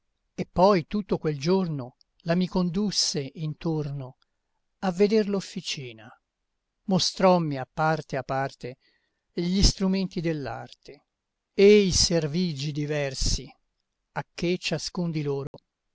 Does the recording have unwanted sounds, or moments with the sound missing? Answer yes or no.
yes